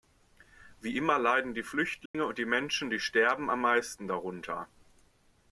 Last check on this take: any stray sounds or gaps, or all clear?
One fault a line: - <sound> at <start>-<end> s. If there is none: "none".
- dropout at 2.1-2.1 s